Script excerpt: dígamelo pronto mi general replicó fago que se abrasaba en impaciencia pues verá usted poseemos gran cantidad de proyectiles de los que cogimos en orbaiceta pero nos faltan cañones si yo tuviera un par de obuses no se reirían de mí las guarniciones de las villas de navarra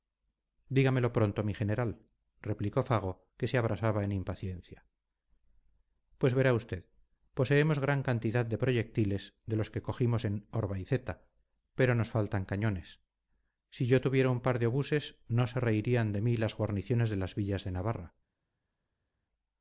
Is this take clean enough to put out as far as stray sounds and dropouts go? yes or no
yes